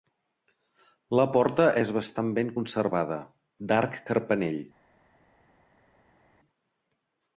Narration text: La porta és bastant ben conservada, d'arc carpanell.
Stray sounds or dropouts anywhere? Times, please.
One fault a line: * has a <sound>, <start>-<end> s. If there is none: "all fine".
all fine